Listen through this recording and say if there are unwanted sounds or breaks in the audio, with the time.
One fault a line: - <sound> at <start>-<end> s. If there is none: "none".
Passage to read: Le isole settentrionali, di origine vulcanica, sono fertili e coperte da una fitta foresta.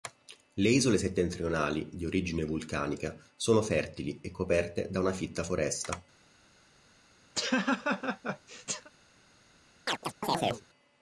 - laugh at 7.3-8.9 s
- chirp at 9.9-10.7 s